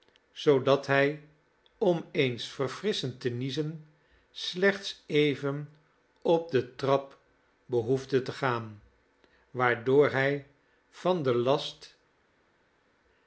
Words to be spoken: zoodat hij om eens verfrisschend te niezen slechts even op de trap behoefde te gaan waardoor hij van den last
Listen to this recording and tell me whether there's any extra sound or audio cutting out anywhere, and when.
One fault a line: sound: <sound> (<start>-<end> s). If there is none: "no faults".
no faults